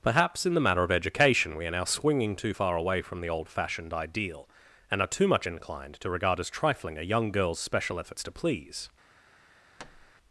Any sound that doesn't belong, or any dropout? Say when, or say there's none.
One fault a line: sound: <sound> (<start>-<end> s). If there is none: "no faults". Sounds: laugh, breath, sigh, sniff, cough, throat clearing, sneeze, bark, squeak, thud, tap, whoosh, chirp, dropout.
sound: thud (9.8-10.1 s)